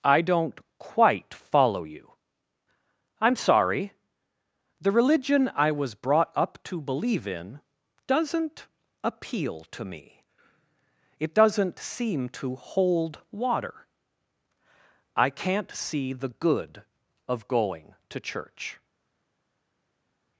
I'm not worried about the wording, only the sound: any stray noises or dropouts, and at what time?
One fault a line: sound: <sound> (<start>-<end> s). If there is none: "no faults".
no faults